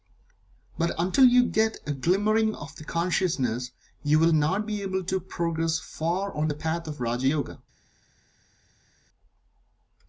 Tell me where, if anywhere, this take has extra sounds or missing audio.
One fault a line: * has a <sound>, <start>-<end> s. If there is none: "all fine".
all fine